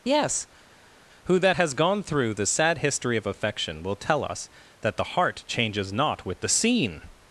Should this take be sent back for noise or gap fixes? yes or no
no